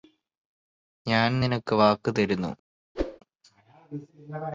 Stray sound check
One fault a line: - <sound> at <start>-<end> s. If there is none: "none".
- whoosh at 2.9-3.2 s